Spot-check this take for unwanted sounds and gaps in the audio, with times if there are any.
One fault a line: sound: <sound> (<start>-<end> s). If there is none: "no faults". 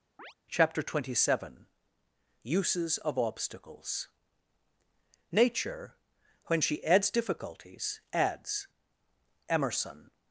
sound: chirp (0.2-0.3 s)